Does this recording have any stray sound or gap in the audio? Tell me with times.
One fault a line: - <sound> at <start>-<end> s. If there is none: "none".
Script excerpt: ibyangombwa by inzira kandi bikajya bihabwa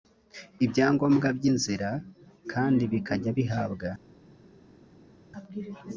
none